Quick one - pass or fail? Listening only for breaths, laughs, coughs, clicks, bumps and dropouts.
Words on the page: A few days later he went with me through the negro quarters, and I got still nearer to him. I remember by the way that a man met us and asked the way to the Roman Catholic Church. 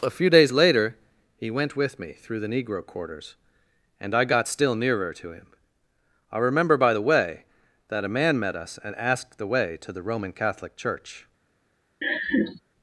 fail